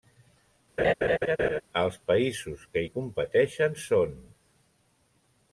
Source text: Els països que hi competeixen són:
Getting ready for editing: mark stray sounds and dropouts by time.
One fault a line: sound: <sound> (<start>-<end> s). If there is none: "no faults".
sound: laugh (0.8-1.6 s)